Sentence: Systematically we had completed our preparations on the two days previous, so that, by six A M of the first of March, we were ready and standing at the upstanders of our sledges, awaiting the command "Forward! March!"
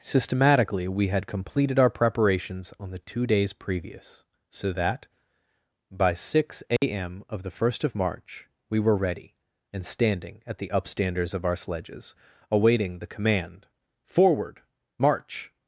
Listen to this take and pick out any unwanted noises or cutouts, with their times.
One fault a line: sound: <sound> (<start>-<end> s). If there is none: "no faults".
sound: dropout (6.8-6.8 s)